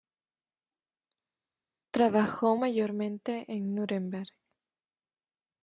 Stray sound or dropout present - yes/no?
no